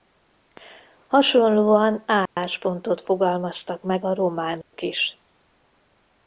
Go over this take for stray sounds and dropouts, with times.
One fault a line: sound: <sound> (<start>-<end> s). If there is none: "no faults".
sound: dropout (2.3-2.4 s)
sound: dropout (4.6-4.7 s)